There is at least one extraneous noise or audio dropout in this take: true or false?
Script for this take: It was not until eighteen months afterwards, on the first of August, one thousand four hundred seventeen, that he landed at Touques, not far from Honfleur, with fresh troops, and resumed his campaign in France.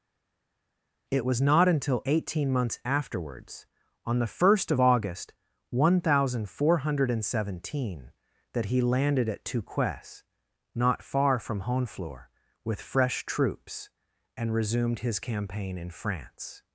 false